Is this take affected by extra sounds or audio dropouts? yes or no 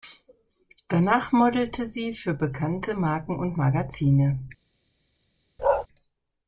yes